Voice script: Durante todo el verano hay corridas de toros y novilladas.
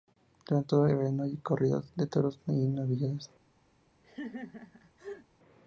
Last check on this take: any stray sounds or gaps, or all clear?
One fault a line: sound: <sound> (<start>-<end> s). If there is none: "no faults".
sound: laugh (4.0-5.3 s)